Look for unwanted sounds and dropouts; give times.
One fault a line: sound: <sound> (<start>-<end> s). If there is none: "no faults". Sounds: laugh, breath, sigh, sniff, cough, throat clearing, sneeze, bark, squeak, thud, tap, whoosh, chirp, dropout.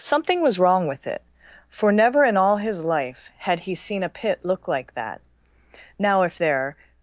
no faults